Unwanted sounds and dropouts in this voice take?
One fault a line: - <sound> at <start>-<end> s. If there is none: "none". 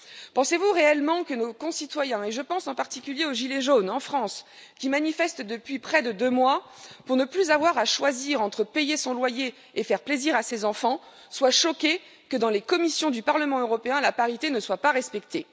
none